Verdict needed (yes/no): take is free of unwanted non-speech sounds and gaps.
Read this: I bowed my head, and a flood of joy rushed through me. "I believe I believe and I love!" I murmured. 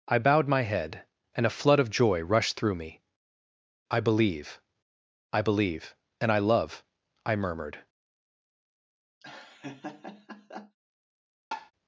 no